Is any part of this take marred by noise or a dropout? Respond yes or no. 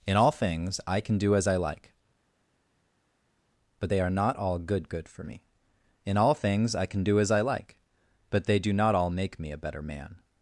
no